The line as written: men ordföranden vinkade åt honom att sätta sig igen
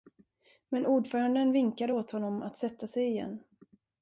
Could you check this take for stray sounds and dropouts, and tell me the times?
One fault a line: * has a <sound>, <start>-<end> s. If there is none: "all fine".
all fine